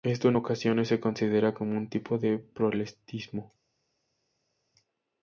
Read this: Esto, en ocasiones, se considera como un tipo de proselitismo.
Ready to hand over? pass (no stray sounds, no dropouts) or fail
pass